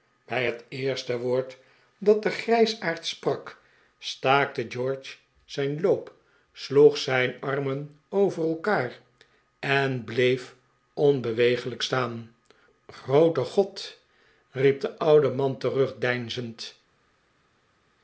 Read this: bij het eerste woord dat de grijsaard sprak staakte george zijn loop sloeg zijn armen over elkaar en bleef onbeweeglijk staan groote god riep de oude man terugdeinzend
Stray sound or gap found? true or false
false